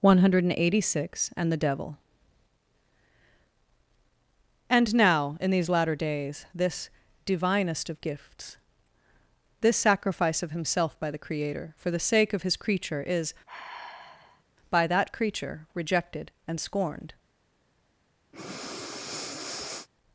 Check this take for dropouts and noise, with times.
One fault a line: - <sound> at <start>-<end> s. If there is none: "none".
- sigh at 13.5-14.4 s
- breath at 18.3-19.9 s